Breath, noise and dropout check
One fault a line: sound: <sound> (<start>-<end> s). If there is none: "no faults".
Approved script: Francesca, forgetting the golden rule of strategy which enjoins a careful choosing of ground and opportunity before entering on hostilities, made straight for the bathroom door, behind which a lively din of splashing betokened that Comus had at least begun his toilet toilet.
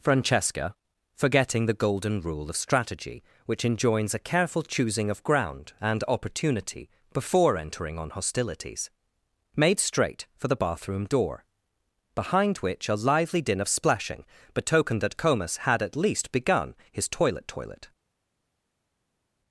no faults